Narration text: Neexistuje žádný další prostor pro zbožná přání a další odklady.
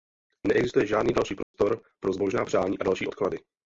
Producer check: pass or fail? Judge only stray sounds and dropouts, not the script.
fail